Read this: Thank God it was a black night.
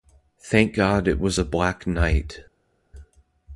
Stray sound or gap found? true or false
false